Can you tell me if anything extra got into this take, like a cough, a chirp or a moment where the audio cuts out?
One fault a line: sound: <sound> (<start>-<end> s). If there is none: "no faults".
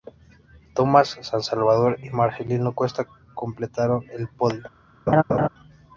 sound: laugh (5.1-5.5 s)